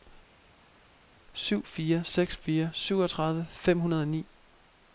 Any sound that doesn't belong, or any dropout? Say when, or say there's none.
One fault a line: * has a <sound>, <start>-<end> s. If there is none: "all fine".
all fine